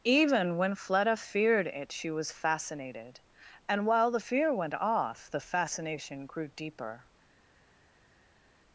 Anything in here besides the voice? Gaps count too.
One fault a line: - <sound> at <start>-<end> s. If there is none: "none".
none